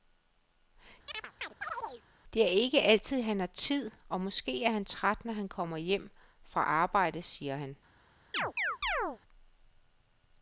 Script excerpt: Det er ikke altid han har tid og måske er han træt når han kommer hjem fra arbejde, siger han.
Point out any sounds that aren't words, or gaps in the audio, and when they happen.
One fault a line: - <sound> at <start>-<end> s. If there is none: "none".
- chirp at 1.1-2.0 s
- chirp at 8.3-9.2 s